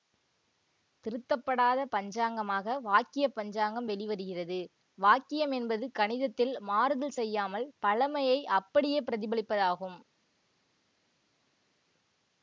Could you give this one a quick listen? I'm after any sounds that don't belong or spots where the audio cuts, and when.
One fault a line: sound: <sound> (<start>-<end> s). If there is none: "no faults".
no faults